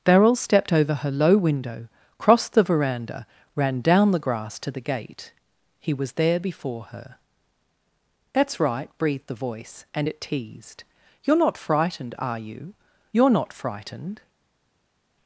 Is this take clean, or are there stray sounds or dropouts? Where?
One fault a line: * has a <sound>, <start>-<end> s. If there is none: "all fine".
all fine